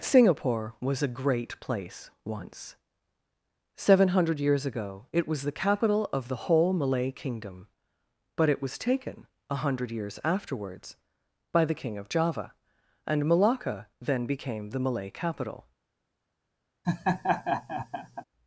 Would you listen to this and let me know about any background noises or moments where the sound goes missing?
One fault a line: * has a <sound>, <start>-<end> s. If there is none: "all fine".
* has a laugh, 16.8-18.2 s